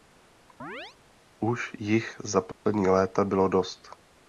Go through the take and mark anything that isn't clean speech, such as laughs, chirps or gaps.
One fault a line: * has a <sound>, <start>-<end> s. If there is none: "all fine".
* has a chirp, 0.6-1.0 s
* has a dropout, 2.5-2.7 s